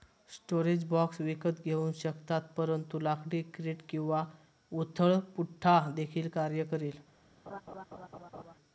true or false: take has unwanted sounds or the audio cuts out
true